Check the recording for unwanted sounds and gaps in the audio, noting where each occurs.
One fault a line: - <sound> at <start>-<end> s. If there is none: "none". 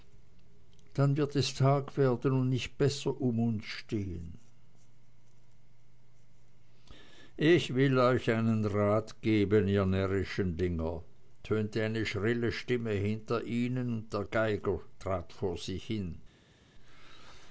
none